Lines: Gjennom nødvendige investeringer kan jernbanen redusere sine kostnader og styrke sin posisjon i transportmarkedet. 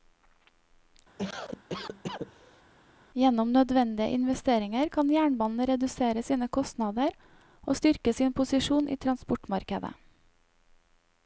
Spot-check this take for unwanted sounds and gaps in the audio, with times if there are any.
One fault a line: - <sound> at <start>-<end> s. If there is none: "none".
- cough at 1.2-2.6 s